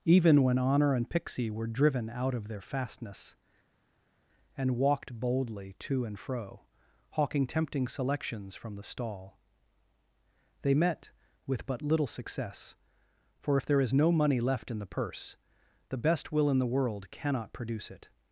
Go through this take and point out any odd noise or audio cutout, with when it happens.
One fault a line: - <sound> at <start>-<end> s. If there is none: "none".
none